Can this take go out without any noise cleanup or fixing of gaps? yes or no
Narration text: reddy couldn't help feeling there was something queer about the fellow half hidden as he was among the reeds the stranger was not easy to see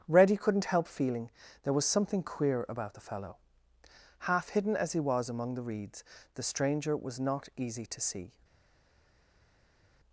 yes